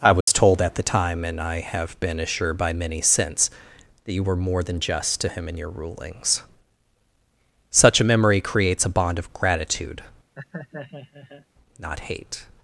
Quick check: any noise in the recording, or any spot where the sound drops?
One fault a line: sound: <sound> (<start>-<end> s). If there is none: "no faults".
sound: dropout (0.2-0.3 s)
sound: laugh (10.4-11.5 s)